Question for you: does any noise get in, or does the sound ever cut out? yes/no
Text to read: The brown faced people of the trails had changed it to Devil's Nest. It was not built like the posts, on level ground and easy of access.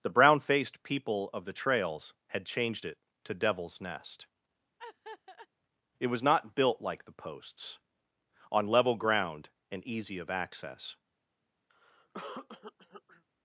yes